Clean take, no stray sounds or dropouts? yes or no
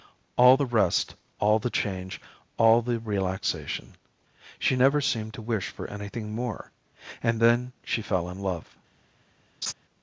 no